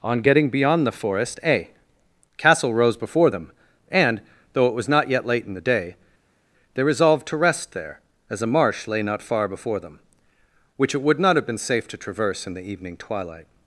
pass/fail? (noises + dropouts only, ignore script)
pass